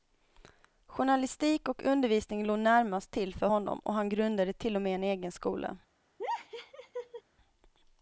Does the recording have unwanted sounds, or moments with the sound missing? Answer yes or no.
yes